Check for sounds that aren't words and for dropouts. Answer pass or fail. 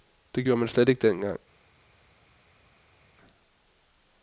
pass